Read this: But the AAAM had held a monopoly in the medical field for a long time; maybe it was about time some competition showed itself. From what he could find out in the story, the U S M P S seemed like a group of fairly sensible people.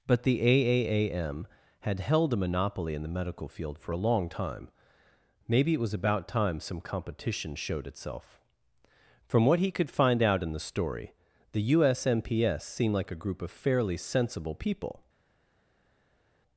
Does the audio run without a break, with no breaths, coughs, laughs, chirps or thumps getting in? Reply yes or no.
yes